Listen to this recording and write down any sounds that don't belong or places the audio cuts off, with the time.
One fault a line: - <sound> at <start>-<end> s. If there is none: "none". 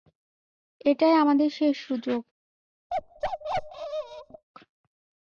- bark at 2.9-4.5 s